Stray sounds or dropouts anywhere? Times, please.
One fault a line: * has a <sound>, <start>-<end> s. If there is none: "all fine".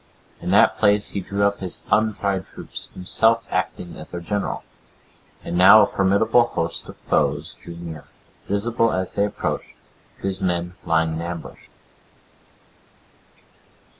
all fine